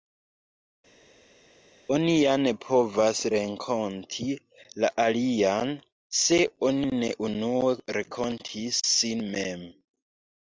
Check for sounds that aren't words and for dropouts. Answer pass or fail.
pass